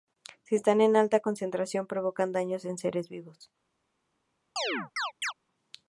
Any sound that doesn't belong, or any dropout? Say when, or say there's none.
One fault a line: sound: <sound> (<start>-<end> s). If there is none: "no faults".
sound: chirp (4.6-5.3 s)